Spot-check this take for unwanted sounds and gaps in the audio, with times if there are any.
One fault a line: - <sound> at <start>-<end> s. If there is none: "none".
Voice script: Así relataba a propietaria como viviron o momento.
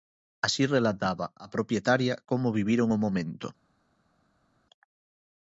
none